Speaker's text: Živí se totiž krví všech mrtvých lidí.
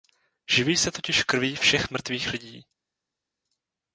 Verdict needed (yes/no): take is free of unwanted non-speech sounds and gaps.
yes